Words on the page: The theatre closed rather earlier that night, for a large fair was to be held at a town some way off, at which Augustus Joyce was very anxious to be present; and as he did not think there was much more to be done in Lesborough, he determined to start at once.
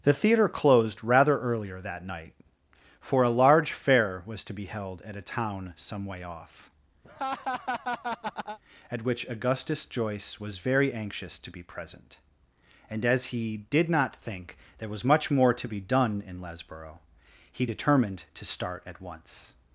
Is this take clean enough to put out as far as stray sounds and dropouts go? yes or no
no